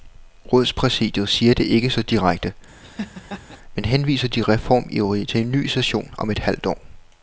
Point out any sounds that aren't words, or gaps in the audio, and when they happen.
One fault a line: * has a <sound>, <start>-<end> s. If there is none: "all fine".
* has a laugh, 2.8-3.6 s